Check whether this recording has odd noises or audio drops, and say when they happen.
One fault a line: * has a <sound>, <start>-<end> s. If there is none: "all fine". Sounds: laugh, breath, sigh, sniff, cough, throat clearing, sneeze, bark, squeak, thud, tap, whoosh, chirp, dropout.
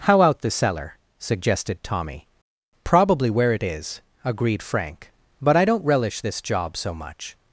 all fine